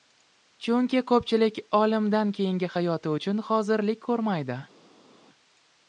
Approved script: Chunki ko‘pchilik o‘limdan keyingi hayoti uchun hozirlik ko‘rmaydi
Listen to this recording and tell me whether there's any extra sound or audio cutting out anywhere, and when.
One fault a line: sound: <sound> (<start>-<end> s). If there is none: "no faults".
no faults